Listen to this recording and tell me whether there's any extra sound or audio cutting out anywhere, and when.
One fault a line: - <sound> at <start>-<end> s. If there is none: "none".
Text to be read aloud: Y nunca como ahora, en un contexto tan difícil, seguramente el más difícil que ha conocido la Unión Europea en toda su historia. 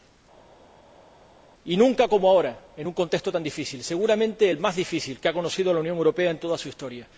none